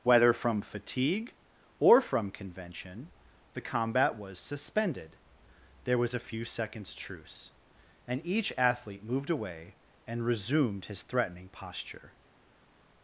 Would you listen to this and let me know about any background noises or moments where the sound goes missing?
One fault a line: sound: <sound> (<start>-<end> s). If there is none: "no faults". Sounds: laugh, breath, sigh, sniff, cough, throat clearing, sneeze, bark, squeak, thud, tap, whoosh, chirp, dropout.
no faults